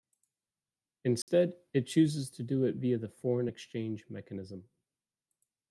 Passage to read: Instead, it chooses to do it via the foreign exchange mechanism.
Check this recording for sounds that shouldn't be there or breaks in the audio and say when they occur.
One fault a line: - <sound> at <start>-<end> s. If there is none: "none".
- dropout at 1.2-1.3 s